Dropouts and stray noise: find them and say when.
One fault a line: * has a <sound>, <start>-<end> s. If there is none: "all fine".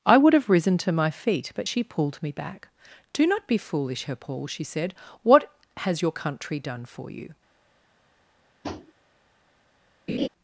* has a tap, 8.6-8.9 s
* has a laugh, 10.1-10.3 s